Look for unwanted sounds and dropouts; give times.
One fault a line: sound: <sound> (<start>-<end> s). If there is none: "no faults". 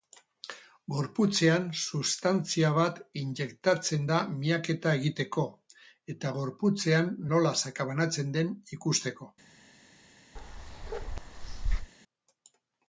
sound: bark (10.4-11.9 s)